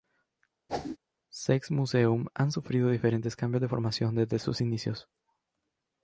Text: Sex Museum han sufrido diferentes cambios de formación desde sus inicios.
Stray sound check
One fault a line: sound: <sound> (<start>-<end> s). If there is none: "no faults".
sound: whoosh (0.7-1.0 s)